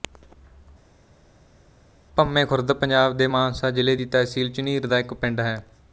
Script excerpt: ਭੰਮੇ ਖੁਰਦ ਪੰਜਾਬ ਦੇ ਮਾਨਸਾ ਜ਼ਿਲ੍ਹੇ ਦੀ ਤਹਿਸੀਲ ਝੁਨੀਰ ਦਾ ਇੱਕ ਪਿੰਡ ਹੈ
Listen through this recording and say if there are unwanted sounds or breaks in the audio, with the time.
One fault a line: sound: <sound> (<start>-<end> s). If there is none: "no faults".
no faults